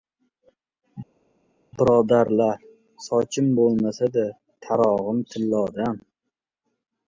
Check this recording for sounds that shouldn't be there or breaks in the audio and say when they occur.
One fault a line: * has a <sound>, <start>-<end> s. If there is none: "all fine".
all fine